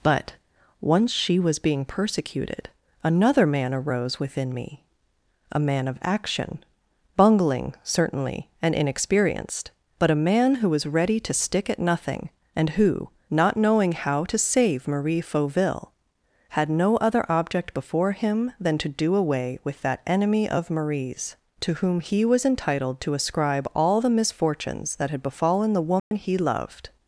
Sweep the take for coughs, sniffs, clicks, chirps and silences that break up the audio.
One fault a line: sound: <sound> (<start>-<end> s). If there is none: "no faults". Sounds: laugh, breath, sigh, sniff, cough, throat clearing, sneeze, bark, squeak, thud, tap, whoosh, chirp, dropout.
sound: dropout (26.0-26.1 s)